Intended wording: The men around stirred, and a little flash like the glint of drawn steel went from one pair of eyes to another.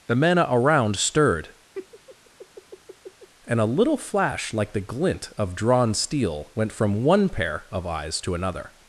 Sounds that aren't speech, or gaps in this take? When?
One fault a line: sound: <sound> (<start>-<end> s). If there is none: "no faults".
sound: laugh (1.7-3.3 s)